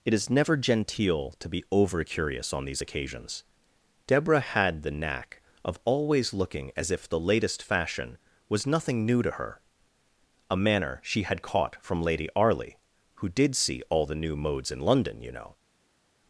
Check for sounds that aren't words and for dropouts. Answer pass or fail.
pass